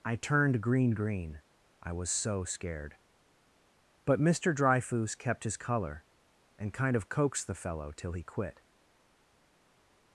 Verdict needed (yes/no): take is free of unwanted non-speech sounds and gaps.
yes